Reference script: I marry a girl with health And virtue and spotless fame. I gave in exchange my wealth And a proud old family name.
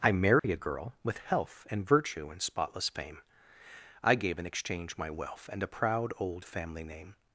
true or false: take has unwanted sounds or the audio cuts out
true